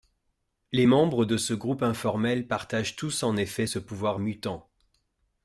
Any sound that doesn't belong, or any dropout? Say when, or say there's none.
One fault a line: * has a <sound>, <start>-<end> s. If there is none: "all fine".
all fine